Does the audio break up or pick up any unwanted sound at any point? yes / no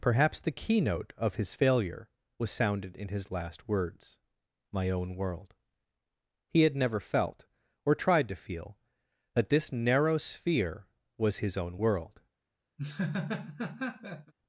yes